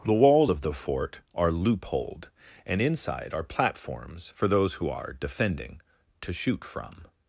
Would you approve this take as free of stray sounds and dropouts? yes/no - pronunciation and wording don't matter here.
yes